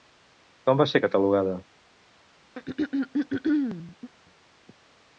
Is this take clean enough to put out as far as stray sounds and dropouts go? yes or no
no